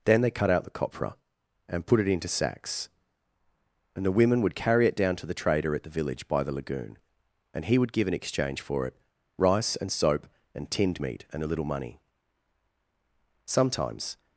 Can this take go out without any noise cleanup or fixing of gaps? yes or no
yes